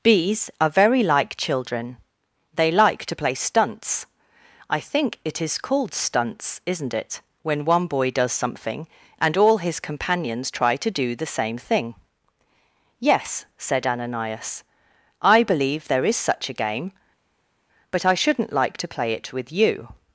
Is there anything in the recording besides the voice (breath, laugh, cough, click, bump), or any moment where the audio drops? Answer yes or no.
no